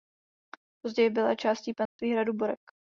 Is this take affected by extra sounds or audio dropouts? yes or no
yes